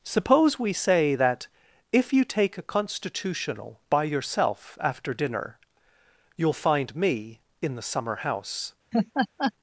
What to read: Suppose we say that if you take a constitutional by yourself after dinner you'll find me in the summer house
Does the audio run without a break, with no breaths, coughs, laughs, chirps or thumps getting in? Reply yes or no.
no